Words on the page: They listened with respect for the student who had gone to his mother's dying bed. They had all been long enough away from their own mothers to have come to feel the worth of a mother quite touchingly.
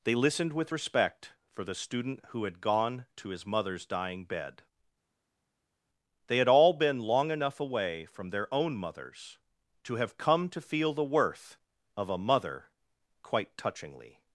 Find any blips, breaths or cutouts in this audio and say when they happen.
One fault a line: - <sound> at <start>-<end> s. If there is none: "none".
none